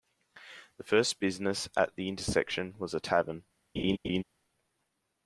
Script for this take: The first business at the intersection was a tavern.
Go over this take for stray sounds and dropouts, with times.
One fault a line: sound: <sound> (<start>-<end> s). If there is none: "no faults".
sound: laugh (3.8-4.2 s)